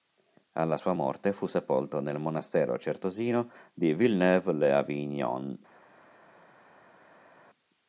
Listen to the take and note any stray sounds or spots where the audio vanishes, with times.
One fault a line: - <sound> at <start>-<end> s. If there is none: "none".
none